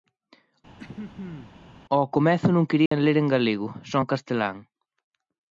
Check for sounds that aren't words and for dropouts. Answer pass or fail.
fail